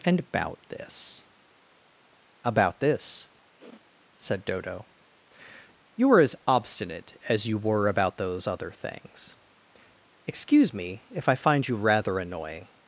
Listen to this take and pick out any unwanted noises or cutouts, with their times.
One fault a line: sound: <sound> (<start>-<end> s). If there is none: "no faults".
sound: sniff (3.6-3.9 s)